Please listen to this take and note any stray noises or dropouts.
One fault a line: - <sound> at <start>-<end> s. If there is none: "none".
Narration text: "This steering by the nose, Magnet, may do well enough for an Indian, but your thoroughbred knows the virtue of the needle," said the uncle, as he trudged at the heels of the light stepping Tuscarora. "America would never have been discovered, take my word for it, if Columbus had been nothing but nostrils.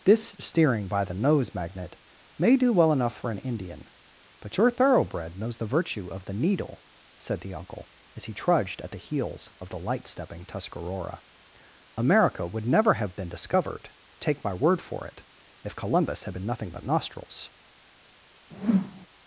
- whoosh at 18.5-19.1 s